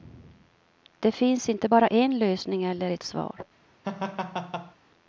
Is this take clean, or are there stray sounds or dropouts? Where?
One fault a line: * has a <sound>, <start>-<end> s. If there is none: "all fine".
* has a laugh, 3.8-4.8 s